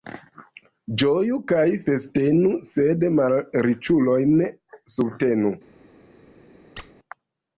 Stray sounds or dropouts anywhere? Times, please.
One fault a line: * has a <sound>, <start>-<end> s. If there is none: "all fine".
* has a squeak, 6.8-6.9 s